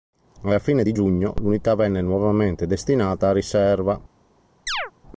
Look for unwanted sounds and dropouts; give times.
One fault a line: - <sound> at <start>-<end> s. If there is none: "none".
- chirp at 4.7-4.9 s